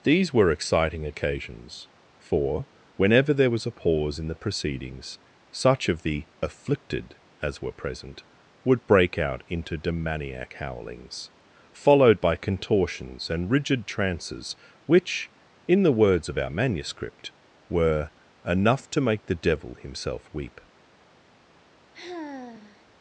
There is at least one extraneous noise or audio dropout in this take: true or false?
true